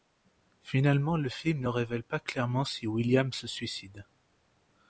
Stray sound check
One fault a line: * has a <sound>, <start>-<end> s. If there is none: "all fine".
all fine